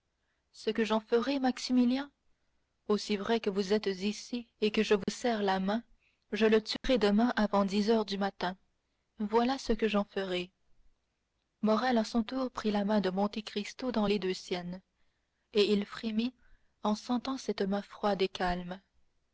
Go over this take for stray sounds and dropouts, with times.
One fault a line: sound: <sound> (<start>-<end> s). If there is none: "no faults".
sound: dropout (5.0-5.1 s)
sound: dropout (6.8-6.8 s)